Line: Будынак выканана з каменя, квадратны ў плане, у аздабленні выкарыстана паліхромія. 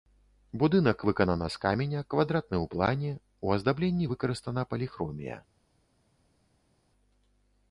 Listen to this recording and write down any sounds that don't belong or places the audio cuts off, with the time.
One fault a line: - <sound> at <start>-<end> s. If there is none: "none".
none